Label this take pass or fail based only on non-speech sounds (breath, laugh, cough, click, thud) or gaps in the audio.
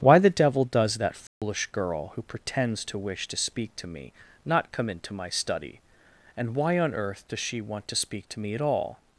fail